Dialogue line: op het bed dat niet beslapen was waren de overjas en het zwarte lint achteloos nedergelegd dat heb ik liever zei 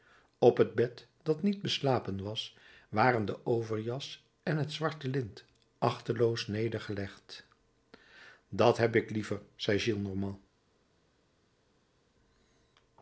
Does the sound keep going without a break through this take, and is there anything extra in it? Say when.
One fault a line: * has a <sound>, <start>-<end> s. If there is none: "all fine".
all fine